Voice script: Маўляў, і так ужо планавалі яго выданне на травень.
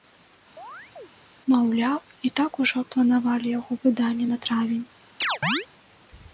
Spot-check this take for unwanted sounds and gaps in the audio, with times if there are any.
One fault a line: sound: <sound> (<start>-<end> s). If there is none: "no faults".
sound: chirp (0.6-1.1 s)
sound: chirp (5.2-5.7 s)